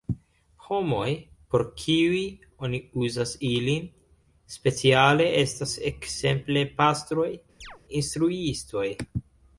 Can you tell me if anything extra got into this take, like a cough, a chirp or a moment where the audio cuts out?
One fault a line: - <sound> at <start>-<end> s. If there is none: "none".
- chirp at 7.6-7.8 s